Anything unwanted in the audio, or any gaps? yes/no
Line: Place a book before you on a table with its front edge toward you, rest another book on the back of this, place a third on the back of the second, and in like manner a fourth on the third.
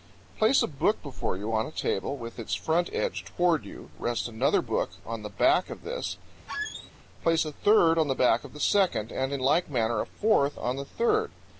yes